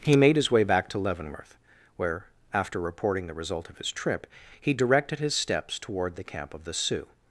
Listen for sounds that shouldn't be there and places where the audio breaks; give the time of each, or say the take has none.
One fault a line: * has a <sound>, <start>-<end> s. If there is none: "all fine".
all fine